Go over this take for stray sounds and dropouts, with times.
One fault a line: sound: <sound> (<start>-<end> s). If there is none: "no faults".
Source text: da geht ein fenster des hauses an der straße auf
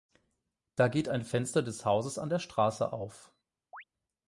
sound: chirp (3.7-3.8 s)